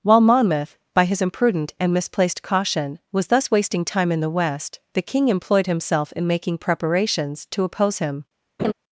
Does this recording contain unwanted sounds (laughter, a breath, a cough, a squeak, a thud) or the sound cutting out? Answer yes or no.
yes